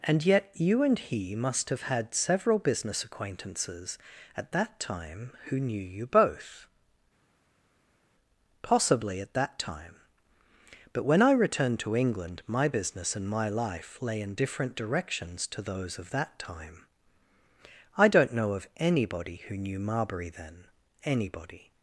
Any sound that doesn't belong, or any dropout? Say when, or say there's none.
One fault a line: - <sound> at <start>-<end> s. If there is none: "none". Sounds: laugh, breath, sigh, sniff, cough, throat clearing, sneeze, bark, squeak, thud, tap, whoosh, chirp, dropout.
none